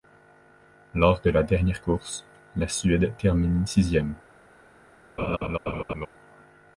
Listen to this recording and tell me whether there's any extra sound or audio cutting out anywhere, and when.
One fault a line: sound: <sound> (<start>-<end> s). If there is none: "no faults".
sound: laugh (5.2-6.1 s)